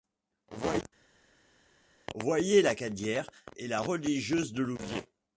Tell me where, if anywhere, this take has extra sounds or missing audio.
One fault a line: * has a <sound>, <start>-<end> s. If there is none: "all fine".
all fine